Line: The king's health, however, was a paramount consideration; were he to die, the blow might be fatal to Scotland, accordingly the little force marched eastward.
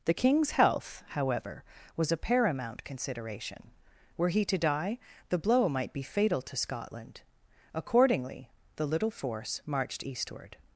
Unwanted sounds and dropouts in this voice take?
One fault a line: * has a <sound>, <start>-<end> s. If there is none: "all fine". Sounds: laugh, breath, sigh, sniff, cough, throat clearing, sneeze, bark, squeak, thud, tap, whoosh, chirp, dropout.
all fine